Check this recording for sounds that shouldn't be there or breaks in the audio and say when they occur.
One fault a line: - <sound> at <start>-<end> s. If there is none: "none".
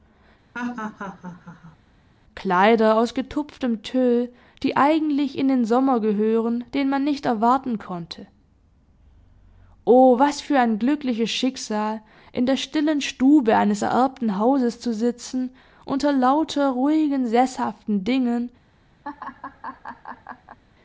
- laugh at 0.5-1.8 s
- laugh at 19.0-20.6 s